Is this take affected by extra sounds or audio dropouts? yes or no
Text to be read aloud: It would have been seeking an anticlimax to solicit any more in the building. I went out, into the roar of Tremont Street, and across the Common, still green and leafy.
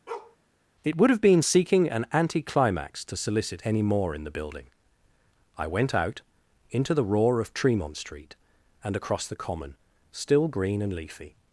yes